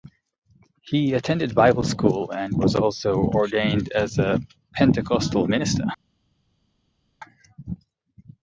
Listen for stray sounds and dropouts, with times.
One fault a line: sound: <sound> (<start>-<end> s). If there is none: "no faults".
no faults